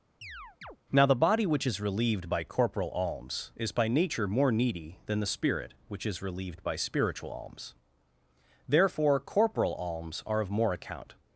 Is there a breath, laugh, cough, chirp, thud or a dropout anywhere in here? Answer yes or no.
yes